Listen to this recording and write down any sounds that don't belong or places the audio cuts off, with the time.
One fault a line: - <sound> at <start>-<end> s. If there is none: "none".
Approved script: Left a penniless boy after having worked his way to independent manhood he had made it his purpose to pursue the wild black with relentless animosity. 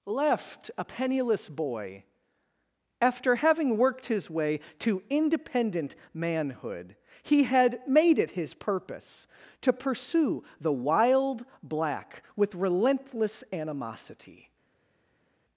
none